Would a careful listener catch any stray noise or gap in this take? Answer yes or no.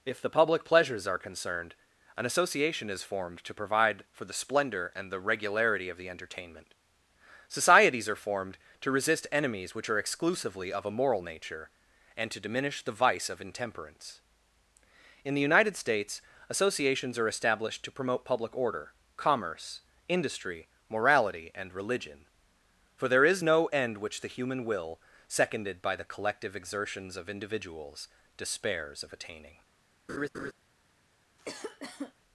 yes